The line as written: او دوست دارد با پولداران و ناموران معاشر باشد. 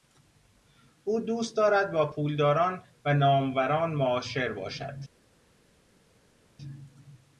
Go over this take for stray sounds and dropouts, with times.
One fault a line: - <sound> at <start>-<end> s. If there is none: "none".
none